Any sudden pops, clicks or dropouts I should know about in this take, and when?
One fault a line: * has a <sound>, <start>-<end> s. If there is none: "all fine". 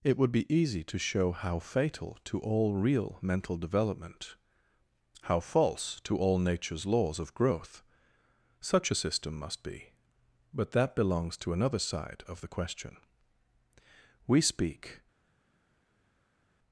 all fine